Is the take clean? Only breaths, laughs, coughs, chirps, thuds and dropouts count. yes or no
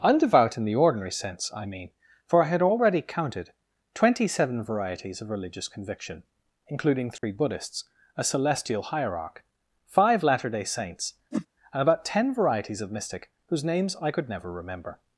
no